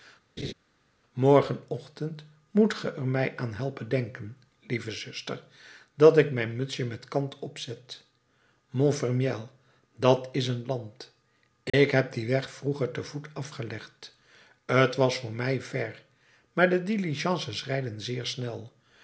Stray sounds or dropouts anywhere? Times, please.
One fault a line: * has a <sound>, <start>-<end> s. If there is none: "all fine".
* has a laugh, 0.4-0.5 s
* has a dropout, 11.7-11.7 s